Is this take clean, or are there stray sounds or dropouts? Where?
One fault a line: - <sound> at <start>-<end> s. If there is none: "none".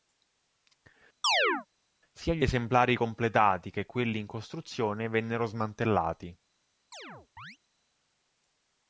- chirp at 1.2-1.7 s
- chirp at 6.9-7.6 s